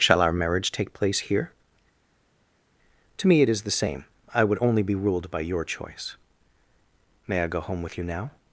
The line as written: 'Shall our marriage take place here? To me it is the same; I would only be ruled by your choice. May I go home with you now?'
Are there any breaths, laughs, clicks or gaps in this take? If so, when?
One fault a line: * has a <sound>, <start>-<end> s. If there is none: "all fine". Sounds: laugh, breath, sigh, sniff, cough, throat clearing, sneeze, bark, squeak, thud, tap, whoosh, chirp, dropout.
all fine